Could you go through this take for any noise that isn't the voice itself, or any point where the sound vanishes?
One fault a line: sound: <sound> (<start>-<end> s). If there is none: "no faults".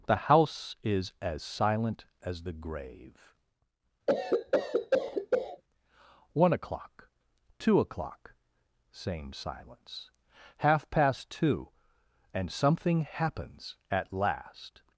sound: cough (4.1-5.6 s)